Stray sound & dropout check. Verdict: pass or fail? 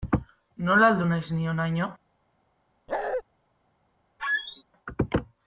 fail